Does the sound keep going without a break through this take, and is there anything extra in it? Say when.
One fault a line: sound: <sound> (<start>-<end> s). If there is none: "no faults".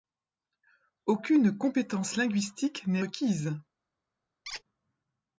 sound: squeak (4.4-4.6 s)